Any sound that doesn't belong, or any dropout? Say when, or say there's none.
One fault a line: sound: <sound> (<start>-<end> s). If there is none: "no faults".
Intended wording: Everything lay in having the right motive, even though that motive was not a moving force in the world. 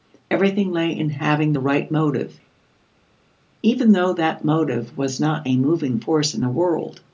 no faults